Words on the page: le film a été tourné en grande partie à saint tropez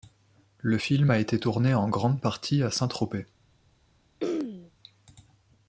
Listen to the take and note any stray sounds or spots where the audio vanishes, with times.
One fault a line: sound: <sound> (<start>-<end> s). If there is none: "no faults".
sound: throat clearing (4.2-4.7 s)